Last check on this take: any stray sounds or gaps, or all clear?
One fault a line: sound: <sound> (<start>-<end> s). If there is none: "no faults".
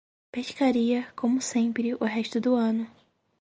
no faults